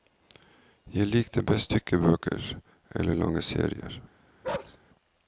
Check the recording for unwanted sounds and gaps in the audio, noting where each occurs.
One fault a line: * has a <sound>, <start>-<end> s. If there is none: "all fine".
* has a bark, 4.4-4.8 s